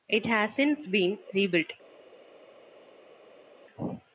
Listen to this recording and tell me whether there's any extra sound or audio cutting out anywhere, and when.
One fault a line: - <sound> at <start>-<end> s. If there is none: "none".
none